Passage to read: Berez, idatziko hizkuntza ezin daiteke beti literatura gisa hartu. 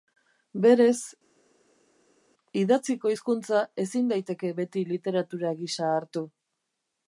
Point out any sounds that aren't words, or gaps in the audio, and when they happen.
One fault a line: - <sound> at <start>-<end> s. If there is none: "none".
none